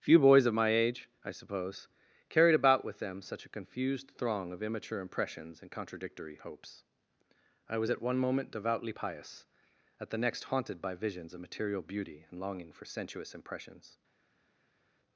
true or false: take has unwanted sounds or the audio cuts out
false